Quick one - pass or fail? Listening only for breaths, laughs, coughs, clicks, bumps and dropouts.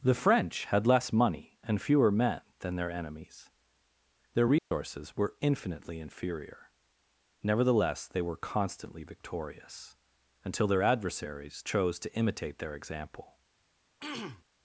fail